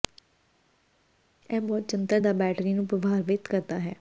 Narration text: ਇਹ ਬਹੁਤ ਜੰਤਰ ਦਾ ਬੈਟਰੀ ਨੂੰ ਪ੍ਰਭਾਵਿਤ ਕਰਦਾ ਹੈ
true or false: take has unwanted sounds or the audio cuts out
false